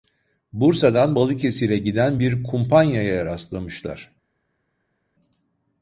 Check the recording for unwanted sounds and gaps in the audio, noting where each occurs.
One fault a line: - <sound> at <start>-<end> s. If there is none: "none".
none